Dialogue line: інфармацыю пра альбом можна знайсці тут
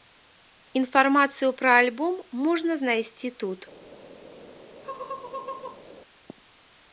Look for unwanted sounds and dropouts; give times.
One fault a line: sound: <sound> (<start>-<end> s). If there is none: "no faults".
sound: laugh (4.8-5.8 s)